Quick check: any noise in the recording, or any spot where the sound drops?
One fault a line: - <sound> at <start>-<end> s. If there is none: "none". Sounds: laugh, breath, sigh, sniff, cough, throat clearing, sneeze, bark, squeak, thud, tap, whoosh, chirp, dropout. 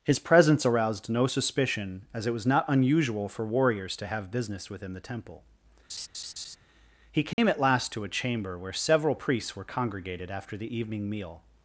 - laugh at 5.9-6.6 s
- dropout at 7.3-7.4 s